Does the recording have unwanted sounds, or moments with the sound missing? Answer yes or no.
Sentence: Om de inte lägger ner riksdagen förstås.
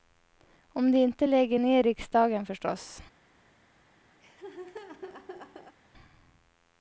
yes